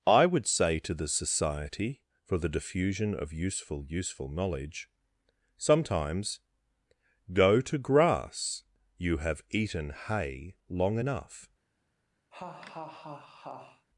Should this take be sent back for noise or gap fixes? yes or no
yes